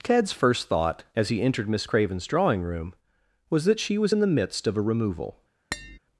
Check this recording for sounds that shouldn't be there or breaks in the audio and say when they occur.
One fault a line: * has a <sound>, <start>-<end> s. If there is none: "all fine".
* has a tap, 5.7-6.0 s